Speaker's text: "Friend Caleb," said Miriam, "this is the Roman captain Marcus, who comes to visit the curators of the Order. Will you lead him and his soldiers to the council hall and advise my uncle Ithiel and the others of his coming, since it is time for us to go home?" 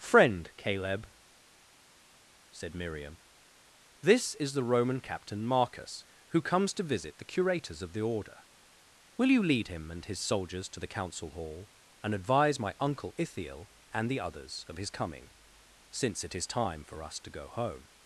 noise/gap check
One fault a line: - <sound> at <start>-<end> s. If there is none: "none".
none